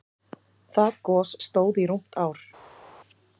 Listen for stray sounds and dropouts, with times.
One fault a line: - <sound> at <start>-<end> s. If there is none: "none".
none